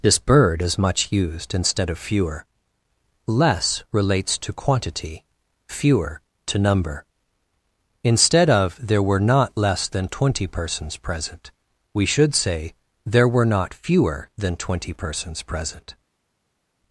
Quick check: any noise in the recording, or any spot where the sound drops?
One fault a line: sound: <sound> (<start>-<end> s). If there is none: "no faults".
no faults